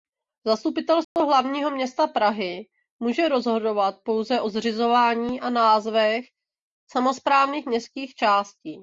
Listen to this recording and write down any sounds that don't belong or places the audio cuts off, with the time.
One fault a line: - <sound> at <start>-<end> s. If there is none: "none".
- dropout at 1.0-1.2 s